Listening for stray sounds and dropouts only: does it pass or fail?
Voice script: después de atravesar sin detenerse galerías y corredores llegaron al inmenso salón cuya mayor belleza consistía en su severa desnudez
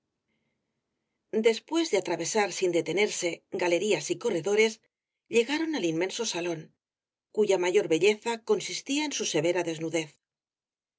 pass